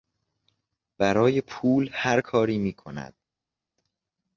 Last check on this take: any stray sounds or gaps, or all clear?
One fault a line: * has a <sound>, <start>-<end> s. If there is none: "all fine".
all fine